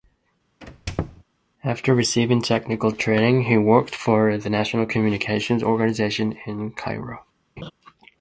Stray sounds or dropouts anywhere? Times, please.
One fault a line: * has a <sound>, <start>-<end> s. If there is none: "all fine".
* has a squeak, 0.6-1.2 s
* has a laugh, 7.6-7.7 s